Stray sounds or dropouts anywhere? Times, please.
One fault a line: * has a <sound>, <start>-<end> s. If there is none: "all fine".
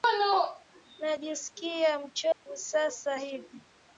* has a dropout, 2.3-2.5 s